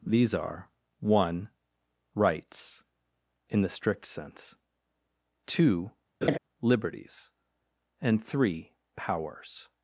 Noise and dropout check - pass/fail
fail